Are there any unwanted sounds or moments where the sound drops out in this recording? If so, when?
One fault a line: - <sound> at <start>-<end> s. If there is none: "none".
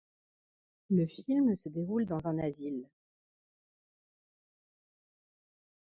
none